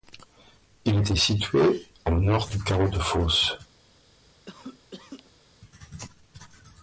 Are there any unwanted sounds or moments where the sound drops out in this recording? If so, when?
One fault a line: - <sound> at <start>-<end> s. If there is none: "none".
- cough at 4.5-5.5 s